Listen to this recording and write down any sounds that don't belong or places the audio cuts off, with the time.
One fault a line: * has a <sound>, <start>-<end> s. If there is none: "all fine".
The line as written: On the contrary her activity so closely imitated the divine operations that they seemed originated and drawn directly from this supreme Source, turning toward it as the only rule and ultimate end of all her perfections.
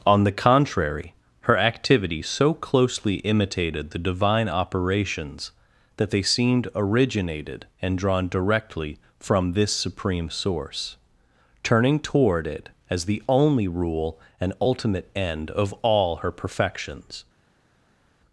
all fine